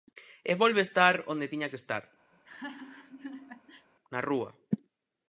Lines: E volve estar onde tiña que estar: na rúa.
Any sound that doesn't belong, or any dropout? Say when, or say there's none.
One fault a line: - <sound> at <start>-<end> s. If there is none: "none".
- laugh at 2.3-3.9 s